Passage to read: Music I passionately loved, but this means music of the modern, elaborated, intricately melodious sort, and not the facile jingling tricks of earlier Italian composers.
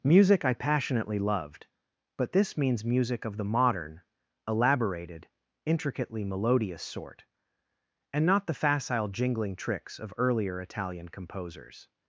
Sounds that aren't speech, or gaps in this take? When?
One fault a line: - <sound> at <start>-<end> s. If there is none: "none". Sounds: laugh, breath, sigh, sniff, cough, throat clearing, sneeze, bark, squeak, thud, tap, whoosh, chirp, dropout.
none